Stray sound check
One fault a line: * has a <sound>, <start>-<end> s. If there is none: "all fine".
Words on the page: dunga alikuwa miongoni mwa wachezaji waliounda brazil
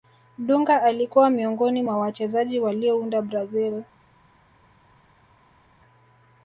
all fine